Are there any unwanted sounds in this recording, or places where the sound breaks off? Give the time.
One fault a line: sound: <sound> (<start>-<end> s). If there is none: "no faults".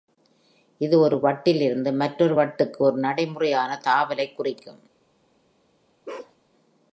sound: bark (6.1-6.4 s)